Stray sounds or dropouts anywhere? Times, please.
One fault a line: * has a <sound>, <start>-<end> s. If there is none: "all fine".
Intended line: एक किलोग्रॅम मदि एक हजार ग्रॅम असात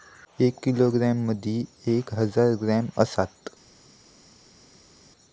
all fine